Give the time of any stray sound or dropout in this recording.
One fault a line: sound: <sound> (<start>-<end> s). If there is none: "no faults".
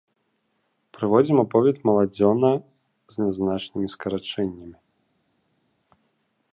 no faults